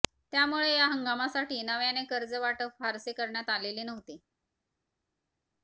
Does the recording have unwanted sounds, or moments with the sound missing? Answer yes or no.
no